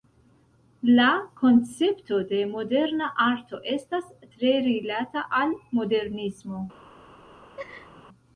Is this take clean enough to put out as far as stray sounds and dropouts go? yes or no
no